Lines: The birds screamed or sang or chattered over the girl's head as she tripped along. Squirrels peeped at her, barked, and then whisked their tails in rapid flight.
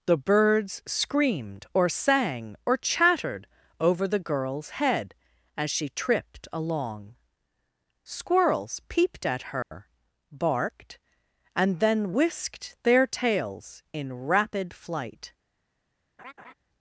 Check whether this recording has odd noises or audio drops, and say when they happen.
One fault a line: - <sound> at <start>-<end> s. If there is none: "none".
- dropout at 9.6-9.7 s
- laugh at 16.2-16.5 s